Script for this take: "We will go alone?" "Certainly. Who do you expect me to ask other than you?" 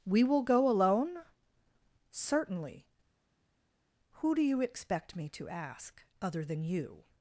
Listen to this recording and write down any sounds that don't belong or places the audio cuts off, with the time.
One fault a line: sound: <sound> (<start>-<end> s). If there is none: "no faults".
no faults